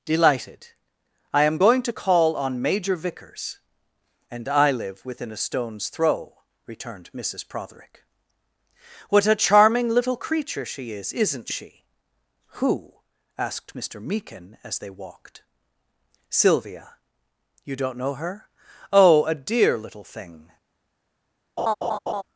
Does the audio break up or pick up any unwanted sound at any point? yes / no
yes